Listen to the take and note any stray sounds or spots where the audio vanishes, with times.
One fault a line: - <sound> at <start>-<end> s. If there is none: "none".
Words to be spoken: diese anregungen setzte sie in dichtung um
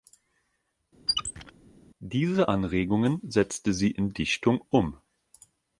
- squeak at 1.1-1.5 s